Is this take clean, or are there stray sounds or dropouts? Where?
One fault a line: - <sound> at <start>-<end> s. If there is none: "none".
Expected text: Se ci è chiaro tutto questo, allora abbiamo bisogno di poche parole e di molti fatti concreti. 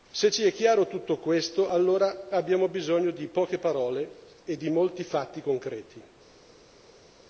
none